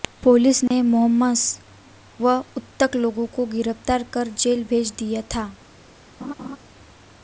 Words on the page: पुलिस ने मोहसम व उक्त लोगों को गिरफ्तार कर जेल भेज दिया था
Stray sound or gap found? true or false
true